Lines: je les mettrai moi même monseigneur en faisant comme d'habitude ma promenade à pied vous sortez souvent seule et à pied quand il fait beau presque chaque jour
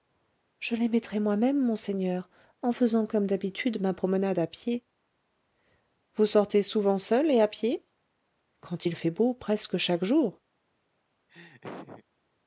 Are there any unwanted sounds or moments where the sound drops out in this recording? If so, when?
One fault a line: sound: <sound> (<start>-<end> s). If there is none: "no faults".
sound: laugh (11.3-12.0 s)